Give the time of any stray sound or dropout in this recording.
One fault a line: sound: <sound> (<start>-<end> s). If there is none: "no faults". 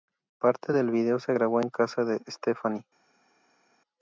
no faults